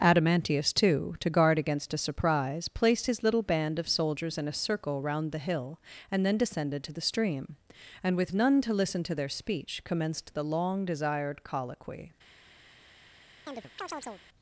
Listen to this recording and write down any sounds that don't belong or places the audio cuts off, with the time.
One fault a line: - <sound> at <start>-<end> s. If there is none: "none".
- chirp at 13.5-14.2 s